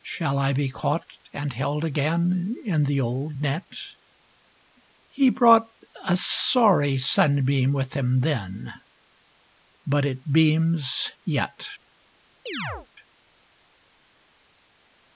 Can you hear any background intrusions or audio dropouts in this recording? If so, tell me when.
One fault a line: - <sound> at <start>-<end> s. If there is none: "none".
- chirp at 12.5-12.9 s